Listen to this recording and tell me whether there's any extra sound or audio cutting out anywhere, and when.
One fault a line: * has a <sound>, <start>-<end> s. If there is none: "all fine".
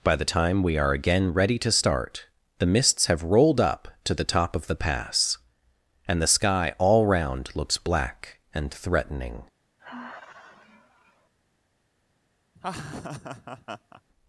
* has a sigh, 9.8-11.3 s
* has a laugh, 12.6-14.0 s